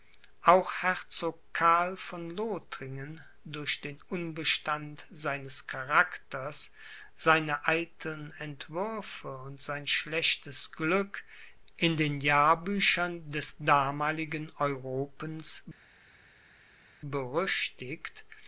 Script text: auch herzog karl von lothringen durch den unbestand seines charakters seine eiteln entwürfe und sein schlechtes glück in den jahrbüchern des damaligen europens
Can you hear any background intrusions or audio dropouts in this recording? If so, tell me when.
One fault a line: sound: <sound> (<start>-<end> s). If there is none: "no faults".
no faults